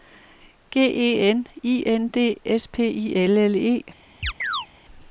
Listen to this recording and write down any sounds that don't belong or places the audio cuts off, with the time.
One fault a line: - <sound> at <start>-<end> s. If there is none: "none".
- chirp at 4.2-4.7 s